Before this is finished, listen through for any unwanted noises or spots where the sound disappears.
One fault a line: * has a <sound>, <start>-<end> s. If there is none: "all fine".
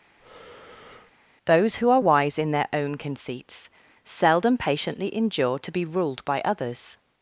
* has a breath, 0.2-1.1 s